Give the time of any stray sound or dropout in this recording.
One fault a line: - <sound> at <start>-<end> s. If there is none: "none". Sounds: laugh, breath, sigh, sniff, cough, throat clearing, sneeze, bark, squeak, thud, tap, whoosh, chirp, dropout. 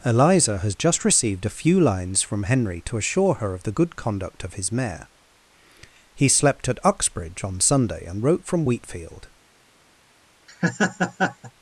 - laugh at 10.5-11.5 s